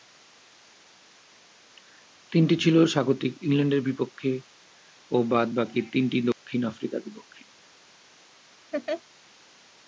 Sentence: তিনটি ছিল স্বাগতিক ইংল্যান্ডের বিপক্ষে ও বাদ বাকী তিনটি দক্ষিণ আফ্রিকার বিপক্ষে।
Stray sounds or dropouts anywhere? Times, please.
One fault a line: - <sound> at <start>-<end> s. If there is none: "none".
- dropout at 6.3-6.5 s
- laugh at 8.7-9.0 s